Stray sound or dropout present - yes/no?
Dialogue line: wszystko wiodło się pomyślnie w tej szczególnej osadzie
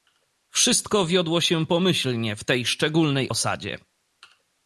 no